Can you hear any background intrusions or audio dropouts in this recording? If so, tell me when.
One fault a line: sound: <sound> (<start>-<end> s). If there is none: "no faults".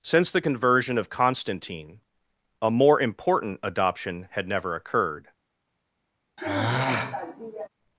sound: sigh (6.4-7.7 s)